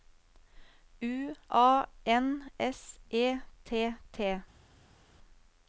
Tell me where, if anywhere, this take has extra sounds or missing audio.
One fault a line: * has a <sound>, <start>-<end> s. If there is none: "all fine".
all fine